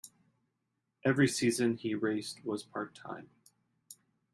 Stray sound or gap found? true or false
false